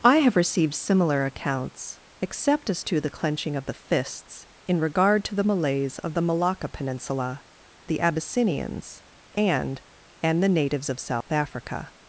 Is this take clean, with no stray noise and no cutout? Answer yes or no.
no